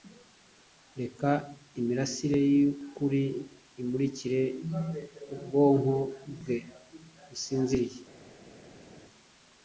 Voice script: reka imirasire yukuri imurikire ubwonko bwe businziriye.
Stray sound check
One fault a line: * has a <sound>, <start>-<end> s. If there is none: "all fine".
all fine